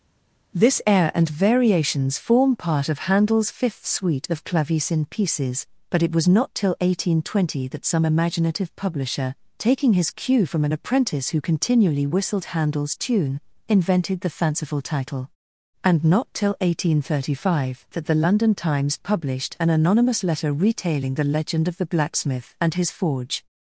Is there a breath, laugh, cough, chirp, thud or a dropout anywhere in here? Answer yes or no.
no